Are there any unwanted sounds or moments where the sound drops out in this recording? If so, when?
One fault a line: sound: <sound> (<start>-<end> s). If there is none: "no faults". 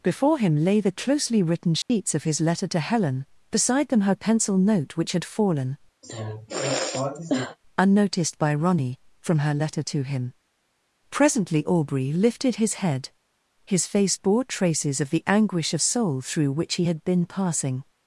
sound: dropout (1.8-1.9 s)
sound: sigh (6.0-7.6 s)